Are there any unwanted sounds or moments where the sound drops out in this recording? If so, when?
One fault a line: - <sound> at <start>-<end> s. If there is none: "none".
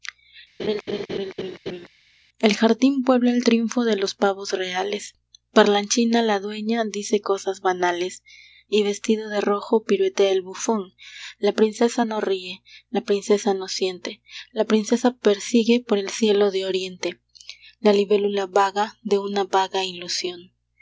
- laugh at 0.6-1.9 s